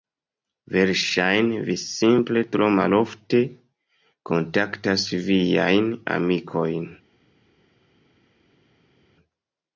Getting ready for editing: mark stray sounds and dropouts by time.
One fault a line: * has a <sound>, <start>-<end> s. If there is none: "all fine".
all fine